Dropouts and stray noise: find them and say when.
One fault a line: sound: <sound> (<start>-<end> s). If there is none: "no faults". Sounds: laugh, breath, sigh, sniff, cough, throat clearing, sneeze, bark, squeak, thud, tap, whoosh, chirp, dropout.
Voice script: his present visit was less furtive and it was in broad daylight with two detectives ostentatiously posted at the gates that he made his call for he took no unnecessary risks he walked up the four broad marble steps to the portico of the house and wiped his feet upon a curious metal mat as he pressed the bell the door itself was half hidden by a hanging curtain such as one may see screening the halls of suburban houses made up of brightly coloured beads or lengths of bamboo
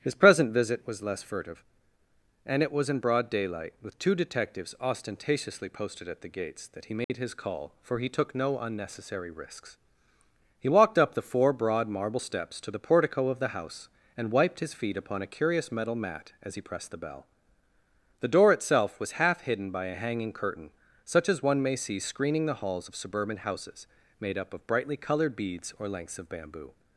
sound: dropout (7.0-7.1 s)